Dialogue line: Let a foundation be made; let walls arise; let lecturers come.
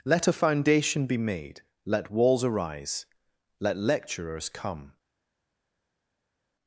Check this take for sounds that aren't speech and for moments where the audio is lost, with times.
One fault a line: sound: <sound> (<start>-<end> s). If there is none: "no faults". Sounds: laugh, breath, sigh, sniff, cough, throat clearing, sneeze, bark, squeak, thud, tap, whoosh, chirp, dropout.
no faults